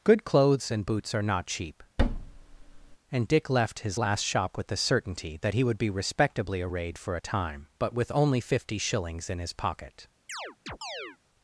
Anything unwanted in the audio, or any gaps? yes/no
yes